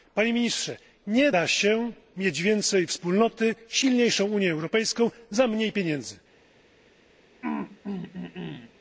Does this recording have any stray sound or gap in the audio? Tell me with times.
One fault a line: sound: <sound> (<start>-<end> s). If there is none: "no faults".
sound: throat clearing (7.4-8.7 s)